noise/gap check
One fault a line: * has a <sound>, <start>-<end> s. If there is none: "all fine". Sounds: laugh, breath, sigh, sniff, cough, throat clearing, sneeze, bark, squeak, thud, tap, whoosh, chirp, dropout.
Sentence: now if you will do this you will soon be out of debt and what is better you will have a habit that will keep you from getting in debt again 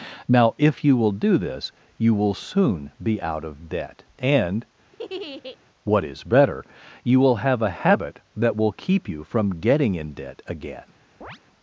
* has a laugh, 4.9-5.6 s
* has a chirp, 11.2-11.4 s